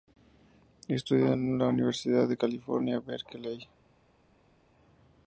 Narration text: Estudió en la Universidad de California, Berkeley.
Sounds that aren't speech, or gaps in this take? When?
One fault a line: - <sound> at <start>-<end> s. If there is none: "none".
none